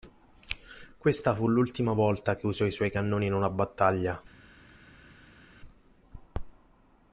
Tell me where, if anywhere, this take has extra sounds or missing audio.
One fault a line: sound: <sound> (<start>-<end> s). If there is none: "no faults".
no faults